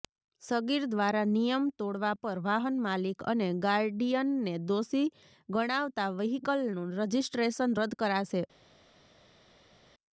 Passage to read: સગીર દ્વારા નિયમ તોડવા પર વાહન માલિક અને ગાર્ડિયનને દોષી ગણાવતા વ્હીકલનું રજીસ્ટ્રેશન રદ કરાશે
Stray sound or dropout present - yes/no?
no